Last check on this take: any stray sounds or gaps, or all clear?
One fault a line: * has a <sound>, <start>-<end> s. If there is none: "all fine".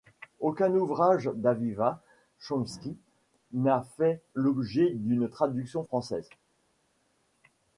all fine